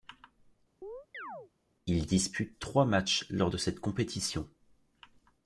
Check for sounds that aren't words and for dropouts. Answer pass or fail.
fail